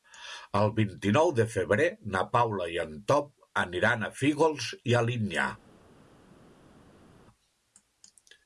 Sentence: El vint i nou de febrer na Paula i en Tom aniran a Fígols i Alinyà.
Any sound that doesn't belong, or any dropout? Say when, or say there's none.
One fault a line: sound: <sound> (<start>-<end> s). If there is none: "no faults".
no faults